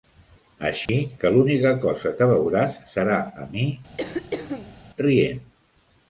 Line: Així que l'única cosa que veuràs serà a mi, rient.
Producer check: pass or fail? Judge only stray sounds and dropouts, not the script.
fail